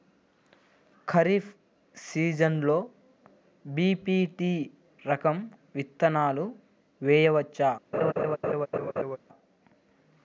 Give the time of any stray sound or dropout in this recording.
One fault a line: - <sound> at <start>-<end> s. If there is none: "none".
- laugh at 7.9-9.2 s